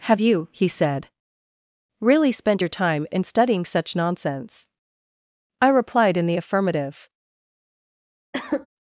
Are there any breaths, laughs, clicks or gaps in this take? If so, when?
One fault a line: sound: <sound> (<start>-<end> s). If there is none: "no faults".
sound: cough (8.3-8.7 s)